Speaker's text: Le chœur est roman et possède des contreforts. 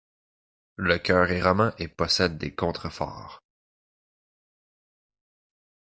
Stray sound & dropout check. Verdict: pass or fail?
pass